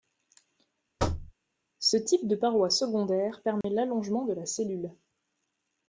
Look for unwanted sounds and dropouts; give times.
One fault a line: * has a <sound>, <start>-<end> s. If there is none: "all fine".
* has a thud, 1.0-1.3 s
* has a dropout, 3.6-3.6 s